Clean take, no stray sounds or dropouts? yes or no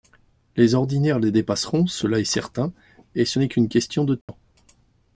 no